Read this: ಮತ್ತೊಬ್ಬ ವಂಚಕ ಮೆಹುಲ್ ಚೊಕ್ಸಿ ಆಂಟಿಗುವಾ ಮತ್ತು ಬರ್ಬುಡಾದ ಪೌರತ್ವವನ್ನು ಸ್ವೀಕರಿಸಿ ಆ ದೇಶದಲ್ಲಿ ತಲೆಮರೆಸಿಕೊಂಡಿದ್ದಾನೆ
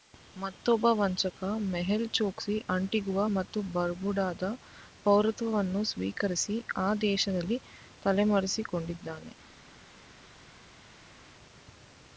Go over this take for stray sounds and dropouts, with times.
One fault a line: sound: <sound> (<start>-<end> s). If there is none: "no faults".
no faults